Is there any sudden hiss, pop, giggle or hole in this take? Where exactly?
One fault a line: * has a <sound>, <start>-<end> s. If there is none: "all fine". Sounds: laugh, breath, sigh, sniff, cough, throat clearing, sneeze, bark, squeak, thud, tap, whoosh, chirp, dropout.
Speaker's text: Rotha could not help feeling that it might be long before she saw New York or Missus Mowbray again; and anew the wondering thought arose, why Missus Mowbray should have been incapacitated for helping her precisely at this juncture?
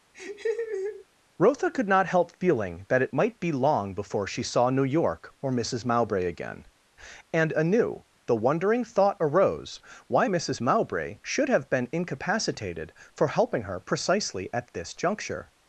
* has a laugh, 0.1-1.1 s